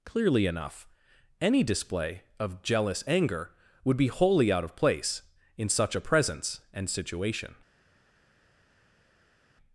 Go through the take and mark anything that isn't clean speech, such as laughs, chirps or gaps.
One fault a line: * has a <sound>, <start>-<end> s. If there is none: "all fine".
all fine